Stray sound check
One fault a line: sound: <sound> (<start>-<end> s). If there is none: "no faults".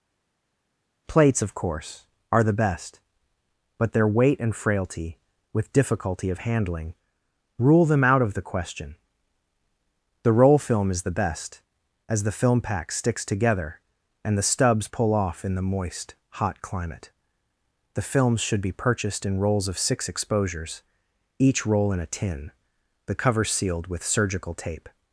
no faults